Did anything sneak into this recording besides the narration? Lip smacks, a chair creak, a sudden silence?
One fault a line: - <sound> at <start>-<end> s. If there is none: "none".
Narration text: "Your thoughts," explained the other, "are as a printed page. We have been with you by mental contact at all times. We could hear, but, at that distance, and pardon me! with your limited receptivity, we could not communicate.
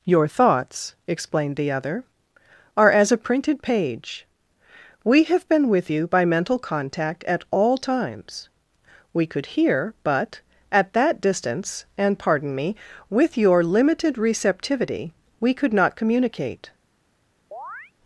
- chirp at 17.5-17.9 s